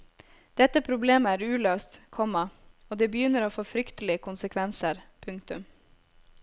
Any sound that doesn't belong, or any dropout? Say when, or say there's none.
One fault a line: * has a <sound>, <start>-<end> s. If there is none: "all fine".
all fine